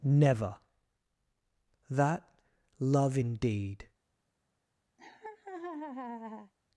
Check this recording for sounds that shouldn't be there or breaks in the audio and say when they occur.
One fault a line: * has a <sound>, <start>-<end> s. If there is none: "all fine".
* has a laugh, 5.0-6.5 s